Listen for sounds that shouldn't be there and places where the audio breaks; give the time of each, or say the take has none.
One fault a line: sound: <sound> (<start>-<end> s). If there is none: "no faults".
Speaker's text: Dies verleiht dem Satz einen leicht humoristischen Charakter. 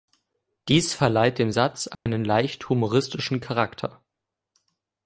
sound: dropout (1.9-2.1 s)